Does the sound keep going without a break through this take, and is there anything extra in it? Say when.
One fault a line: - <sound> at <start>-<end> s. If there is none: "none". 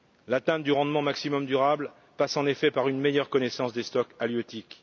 none